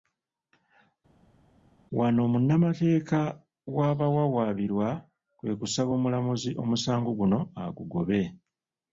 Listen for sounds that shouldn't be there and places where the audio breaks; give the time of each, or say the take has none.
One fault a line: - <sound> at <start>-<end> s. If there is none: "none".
none